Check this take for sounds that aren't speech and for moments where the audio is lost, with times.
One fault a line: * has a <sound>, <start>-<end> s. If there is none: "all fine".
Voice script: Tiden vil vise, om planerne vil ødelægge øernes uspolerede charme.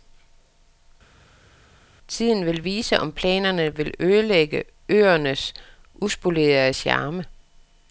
all fine